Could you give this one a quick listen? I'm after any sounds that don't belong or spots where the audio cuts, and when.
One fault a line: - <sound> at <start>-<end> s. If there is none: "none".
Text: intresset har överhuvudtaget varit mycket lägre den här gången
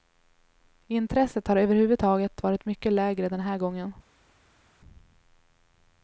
none